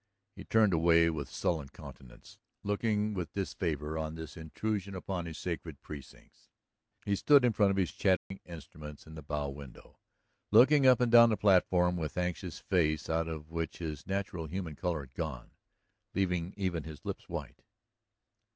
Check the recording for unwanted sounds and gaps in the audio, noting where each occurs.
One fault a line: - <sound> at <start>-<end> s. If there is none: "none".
- dropout at 8.2-8.3 s